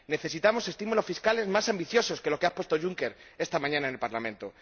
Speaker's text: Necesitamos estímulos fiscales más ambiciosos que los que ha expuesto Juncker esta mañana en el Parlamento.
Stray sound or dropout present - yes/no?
no